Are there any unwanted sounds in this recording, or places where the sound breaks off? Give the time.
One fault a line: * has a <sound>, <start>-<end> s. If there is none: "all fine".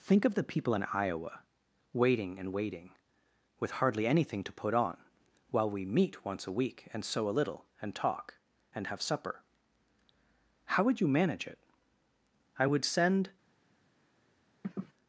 * has a sniff, 14.6-14.9 s